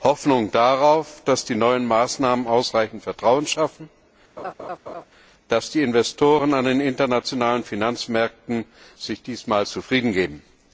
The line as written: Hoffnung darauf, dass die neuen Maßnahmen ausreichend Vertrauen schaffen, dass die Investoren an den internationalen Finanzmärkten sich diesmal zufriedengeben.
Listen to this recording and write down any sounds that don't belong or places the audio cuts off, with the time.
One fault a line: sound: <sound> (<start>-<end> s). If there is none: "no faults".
sound: laugh (4.4-5.0 s)